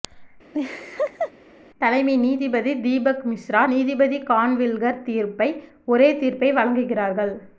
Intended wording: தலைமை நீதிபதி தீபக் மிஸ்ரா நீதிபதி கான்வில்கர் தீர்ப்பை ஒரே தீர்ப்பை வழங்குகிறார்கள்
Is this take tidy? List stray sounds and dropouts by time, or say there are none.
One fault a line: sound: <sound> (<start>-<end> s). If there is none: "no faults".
sound: laugh (0.5-1.3 s)